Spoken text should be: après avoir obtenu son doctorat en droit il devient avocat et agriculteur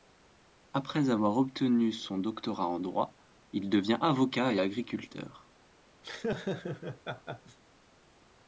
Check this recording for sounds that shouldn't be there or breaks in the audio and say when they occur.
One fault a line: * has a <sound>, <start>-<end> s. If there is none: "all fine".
* has a laugh, 6.0-7.6 s